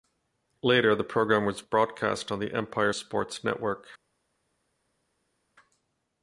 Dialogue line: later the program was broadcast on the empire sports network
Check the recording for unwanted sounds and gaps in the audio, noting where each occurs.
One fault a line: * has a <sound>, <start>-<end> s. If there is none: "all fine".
all fine